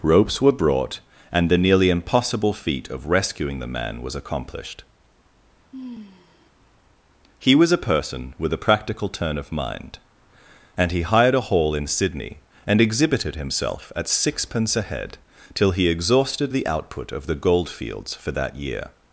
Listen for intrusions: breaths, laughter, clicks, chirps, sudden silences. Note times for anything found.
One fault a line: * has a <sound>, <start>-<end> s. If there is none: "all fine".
* has a sigh, 5.7-6.5 s